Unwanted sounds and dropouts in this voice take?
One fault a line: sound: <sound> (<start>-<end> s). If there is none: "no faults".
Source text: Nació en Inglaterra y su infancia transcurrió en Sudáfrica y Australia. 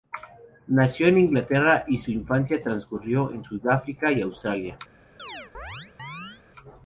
sound: chirp (5.2-6.4 s)